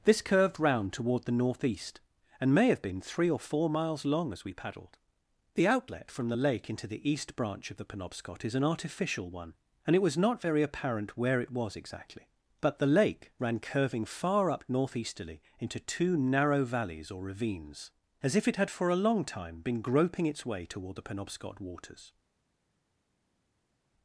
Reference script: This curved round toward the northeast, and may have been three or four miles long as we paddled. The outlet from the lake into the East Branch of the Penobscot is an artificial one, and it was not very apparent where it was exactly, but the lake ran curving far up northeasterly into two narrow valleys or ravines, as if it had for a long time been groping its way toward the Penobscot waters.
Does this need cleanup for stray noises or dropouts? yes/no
no